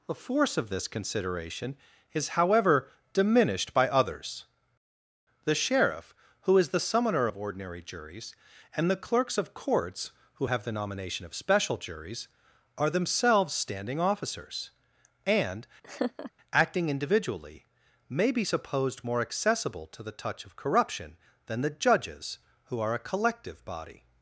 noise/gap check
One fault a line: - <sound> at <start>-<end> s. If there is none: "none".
- laugh at 15.8-16.3 s